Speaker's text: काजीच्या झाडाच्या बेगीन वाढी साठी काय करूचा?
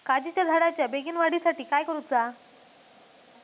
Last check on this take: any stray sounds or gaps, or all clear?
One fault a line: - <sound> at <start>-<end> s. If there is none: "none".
none